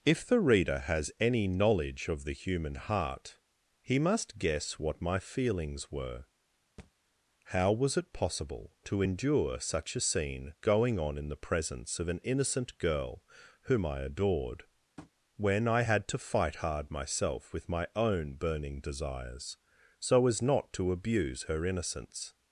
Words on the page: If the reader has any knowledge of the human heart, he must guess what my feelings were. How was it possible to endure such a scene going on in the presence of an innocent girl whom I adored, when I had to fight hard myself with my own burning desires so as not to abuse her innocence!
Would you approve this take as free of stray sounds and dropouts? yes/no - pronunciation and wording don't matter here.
no